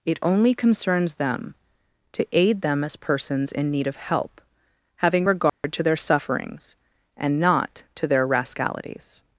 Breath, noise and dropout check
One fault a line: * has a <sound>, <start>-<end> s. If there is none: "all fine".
* has a dropout, 5.5-5.6 s